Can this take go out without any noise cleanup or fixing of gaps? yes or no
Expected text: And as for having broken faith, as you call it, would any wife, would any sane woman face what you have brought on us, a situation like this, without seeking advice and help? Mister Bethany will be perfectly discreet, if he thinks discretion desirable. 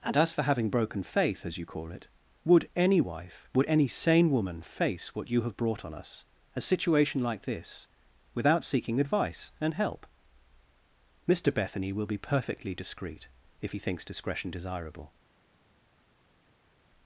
yes